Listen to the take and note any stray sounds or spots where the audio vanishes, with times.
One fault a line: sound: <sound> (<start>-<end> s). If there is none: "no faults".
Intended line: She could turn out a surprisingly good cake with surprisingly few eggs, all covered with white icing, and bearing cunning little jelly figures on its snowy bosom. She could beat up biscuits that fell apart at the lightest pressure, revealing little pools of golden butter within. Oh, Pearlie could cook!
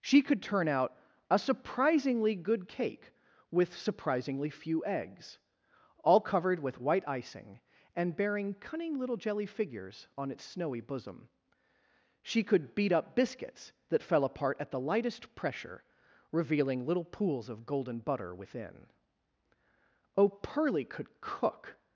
no faults